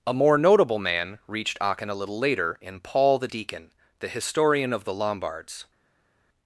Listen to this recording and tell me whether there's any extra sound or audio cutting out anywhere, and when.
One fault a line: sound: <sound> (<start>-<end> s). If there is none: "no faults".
no faults